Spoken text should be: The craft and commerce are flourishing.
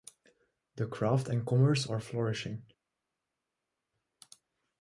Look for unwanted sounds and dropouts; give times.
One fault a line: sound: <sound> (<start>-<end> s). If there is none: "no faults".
no faults